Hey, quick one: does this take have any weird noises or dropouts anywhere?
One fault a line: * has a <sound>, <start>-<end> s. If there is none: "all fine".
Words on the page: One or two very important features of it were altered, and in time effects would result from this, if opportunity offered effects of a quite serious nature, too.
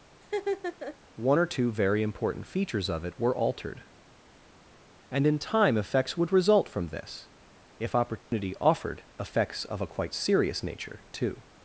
* has a laugh, 0.2-1.0 s
* has a dropout, 8.2-8.3 s